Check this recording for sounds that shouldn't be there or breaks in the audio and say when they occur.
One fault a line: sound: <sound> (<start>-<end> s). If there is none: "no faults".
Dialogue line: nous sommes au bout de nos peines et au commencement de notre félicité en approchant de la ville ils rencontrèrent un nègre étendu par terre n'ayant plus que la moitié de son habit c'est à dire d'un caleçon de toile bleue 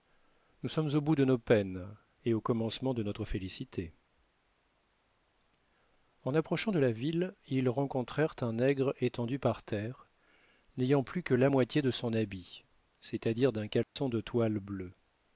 sound: dropout (13.8-14.0 s)